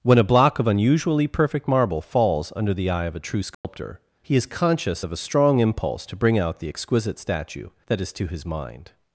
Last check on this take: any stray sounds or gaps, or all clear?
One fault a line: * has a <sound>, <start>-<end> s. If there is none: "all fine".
* has a dropout, 3.5-3.6 s